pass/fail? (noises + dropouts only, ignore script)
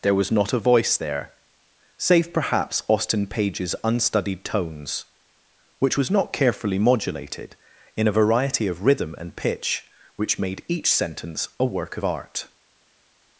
pass